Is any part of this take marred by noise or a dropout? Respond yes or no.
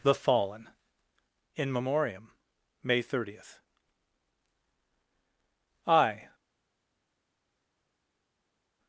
no